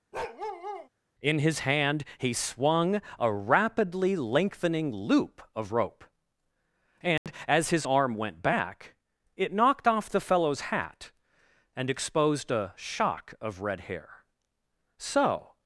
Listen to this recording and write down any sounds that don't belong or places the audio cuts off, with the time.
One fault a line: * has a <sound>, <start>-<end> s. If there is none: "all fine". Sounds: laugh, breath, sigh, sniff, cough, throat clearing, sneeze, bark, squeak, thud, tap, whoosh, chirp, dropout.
* has a bark, 0.1-0.9 s
* has a dropout, 7.2-7.3 s